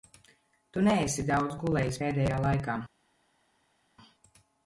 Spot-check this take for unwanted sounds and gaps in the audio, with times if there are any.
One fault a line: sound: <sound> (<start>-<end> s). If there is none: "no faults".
no faults